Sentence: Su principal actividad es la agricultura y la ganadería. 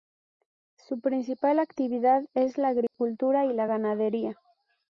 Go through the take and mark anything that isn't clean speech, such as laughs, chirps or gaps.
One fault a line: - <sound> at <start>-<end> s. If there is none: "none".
- dropout at 2.9-2.9 s